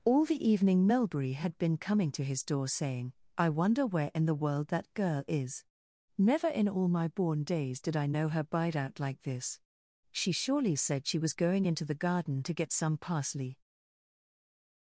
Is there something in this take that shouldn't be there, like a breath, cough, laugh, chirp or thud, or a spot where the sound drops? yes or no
no